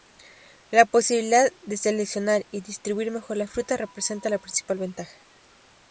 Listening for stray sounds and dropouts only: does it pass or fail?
pass